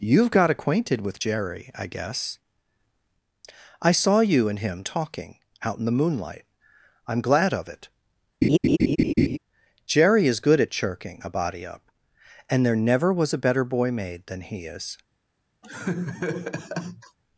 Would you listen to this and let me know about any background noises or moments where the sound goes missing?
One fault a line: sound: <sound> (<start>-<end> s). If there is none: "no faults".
sound: laugh (8.4-9.4 s)
sound: laugh (15.6-17.2 s)